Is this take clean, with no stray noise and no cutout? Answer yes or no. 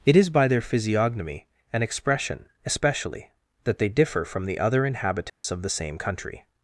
no